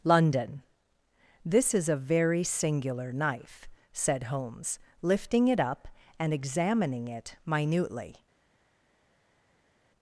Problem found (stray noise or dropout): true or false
false